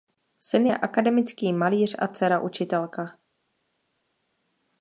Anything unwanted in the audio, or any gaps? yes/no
no